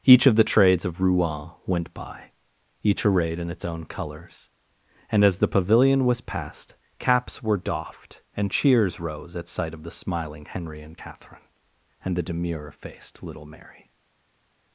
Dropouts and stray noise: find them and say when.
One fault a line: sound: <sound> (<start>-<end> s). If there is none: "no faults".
no faults